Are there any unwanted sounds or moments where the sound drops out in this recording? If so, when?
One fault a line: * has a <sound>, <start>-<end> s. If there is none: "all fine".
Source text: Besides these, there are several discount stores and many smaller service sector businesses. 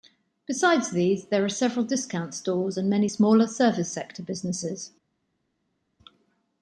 all fine